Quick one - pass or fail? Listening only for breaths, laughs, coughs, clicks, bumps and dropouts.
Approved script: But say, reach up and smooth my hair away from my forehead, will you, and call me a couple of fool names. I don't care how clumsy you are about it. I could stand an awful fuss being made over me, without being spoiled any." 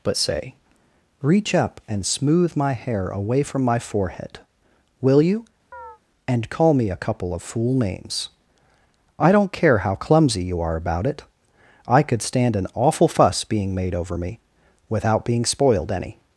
fail